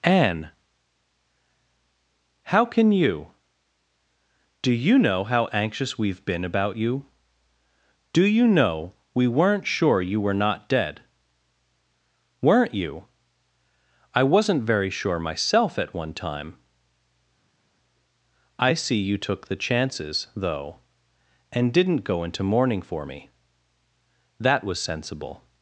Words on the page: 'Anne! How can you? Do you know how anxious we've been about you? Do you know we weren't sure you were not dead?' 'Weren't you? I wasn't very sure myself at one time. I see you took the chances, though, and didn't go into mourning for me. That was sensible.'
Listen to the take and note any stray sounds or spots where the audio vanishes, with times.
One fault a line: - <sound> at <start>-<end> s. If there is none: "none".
none